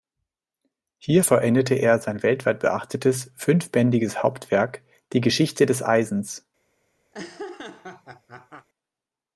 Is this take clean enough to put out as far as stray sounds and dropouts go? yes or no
no